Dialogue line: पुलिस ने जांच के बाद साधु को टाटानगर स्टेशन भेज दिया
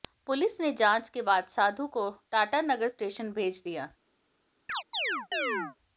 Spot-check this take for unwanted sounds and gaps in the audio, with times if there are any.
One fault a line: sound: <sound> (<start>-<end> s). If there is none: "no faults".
sound: chirp (4.7-5.8 s)